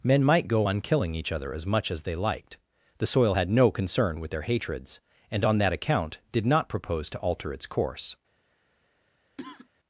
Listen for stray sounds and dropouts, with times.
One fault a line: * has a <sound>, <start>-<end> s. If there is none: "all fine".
* has a cough, 9.4-9.7 s